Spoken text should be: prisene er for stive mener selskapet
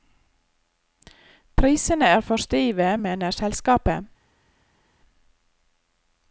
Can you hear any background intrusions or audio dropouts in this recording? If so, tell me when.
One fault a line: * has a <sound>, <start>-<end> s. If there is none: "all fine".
all fine